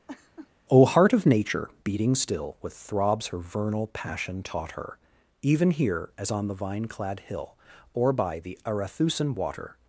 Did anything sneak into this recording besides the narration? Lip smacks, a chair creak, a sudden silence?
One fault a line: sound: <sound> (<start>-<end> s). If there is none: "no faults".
sound: laugh (0.1-0.5 s)